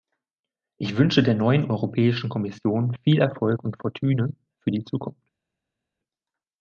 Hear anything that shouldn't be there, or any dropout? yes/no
no